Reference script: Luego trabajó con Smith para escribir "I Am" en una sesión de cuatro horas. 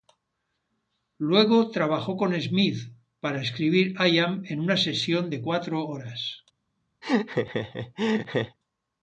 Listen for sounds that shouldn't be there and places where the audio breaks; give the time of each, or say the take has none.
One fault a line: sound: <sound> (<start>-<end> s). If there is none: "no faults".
sound: laugh (7.0-8.6 s)